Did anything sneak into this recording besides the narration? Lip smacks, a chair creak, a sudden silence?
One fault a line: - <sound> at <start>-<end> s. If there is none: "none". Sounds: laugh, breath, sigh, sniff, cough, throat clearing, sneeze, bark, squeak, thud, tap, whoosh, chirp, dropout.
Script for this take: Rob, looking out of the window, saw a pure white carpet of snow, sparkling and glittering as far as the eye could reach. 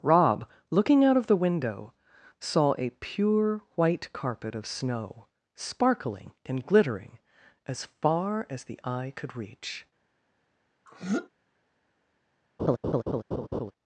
- throat clearing at 10.9-11.3 s
- laugh at 12.6-13.7 s